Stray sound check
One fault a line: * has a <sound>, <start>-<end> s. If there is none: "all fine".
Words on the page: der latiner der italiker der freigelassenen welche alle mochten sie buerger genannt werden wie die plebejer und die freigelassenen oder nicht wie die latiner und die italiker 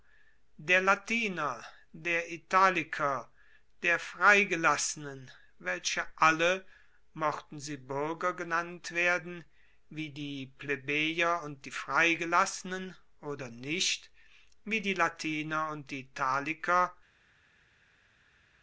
all fine